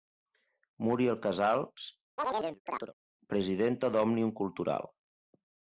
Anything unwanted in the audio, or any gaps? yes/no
yes